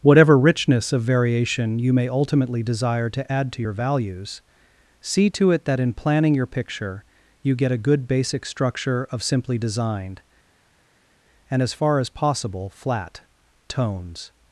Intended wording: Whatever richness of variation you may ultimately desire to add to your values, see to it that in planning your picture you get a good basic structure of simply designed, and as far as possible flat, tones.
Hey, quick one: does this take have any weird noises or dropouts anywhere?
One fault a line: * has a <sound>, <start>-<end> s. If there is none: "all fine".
all fine